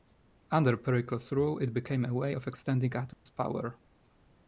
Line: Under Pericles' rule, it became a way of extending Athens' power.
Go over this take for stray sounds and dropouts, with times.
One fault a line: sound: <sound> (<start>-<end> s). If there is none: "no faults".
sound: dropout (3.1-3.3 s)